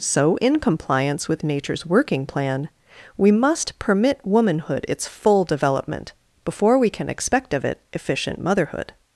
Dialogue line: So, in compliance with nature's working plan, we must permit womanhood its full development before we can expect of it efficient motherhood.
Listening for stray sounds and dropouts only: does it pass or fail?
pass